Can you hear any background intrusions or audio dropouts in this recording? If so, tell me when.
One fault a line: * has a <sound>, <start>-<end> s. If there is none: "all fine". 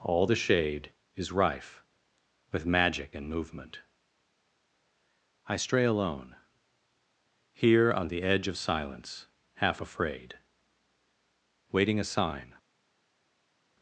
all fine